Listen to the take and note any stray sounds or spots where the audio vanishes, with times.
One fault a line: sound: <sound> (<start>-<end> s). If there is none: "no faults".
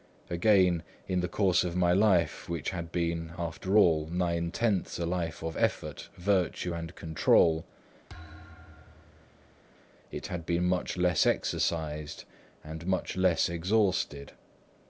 sound: thud (8.1-9.6 s)